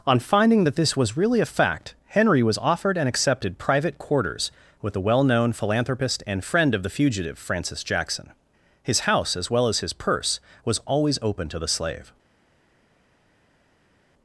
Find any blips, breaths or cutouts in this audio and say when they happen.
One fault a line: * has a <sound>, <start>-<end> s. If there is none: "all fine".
all fine